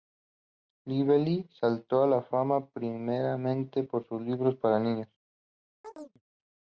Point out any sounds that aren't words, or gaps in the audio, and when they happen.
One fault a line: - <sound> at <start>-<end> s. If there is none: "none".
- chirp at 5.8-6.2 s